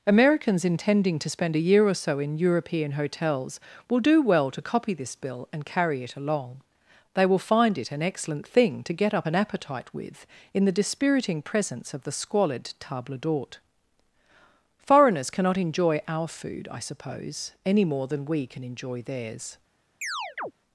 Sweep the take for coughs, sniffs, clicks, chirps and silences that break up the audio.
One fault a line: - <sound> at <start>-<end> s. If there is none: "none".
- chirp at 20.0-20.5 s